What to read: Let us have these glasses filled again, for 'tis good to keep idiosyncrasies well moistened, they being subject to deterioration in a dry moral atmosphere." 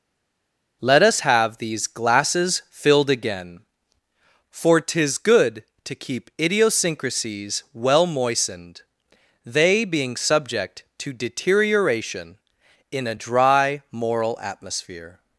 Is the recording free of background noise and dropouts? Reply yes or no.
yes